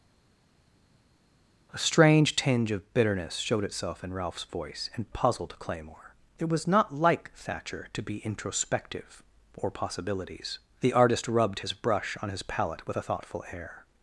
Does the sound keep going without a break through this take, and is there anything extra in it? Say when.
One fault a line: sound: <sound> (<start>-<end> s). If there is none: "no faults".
no faults